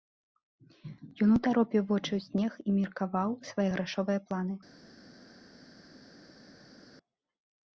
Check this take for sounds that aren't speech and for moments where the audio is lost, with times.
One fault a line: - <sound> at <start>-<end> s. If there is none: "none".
none